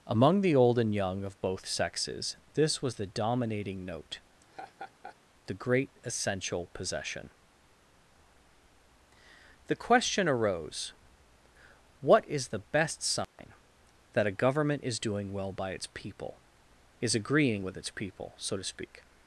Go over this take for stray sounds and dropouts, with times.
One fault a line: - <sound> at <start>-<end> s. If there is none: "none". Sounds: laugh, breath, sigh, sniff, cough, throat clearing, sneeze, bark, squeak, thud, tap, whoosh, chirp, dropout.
- laugh at 4.4-5.2 s
- dropout at 13.2-13.4 s